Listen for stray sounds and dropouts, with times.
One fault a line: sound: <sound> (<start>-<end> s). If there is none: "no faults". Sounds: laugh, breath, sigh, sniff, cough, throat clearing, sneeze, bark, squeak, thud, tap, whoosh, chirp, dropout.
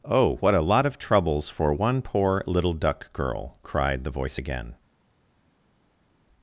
no faults